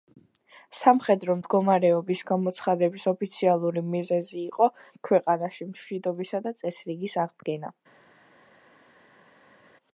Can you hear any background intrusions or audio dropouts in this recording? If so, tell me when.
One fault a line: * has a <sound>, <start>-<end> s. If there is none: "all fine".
all fine